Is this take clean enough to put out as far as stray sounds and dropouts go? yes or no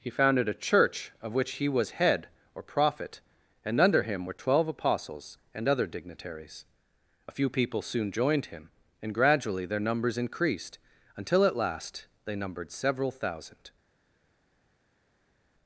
yes